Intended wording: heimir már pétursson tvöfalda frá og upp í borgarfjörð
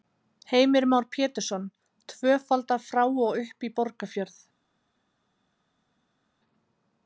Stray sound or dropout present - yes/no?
no